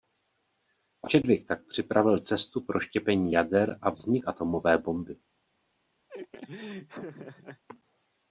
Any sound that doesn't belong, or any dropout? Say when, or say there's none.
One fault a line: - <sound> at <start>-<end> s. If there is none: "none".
- laugh at 6.1-7.6 s